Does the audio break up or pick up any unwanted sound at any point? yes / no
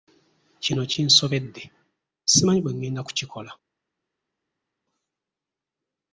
no